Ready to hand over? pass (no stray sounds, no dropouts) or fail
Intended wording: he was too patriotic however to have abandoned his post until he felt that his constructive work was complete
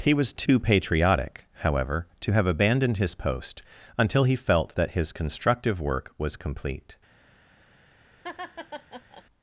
fail